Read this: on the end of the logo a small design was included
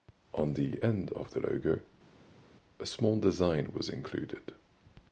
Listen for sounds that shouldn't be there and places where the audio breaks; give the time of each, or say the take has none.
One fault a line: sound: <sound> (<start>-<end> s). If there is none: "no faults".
no faults